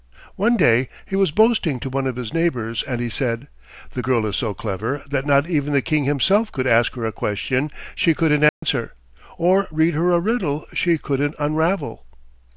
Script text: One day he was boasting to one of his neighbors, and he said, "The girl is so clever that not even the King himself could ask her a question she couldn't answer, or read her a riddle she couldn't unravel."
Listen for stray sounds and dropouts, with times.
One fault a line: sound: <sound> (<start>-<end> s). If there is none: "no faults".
sound: dropout (8.5-8.6 s)